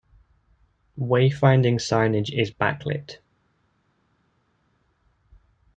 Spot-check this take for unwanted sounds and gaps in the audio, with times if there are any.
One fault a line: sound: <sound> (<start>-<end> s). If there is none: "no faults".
no faults